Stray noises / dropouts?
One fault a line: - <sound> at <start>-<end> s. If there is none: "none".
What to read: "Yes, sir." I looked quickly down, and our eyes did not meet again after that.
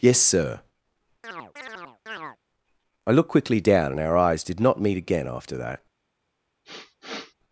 - chirp at 1.2-2.4 s
- sniff at 6.6-7.3 s